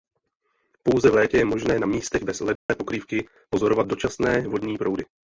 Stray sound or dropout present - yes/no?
yes